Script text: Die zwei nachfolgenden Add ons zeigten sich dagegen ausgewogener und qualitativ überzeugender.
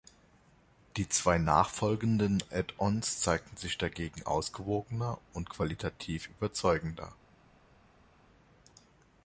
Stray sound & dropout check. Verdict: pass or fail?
pass